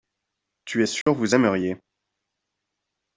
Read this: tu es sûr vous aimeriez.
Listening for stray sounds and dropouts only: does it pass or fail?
fail